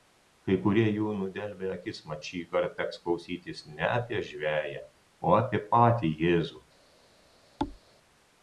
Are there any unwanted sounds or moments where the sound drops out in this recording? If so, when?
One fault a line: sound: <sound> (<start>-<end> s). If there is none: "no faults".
sound: thud (7.6-7.8 s)